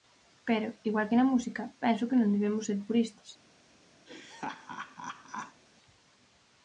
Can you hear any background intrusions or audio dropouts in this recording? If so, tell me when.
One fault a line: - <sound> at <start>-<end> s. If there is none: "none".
- laugh at 4.1-5.6 s